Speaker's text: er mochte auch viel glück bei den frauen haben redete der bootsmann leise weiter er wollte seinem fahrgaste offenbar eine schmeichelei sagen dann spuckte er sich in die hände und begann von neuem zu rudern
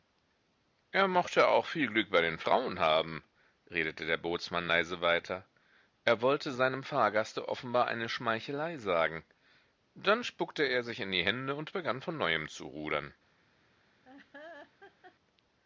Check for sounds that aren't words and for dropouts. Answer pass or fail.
fail